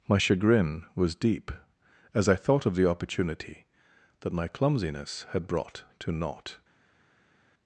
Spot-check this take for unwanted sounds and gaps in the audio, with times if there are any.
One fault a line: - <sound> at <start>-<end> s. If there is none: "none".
none